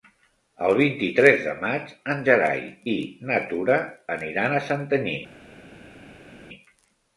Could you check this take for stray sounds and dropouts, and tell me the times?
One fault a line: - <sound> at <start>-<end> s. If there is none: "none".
none